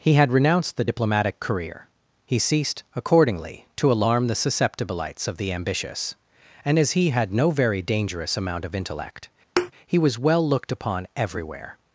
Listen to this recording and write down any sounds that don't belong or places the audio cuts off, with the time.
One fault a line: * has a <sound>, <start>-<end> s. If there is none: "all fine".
* has a thud, 9.6-9.7 s